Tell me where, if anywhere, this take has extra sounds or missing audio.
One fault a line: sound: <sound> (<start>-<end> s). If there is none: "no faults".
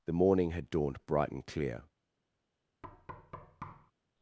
sound: thud (2.8-3.9 s)